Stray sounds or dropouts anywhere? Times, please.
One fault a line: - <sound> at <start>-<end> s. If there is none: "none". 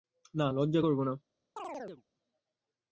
- chirp at 1.6-2.0 s